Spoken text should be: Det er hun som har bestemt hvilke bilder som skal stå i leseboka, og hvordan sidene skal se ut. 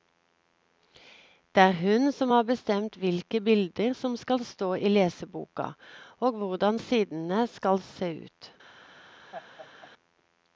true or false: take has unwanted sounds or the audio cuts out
true